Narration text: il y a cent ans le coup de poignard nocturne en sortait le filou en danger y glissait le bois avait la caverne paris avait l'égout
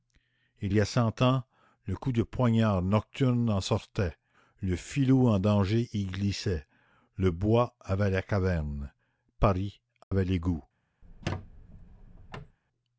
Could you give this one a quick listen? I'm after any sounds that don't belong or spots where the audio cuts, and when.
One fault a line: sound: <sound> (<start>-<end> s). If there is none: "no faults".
sound: dropout (10.0-10.1 s)
sound: squeak (11.0-12.6 s)